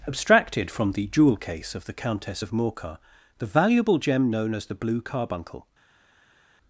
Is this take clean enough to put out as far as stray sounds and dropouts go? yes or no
yes